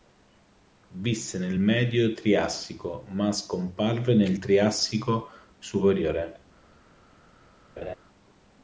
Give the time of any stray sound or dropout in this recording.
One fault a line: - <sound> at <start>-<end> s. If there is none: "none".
- laugh at 7.8-8.0 s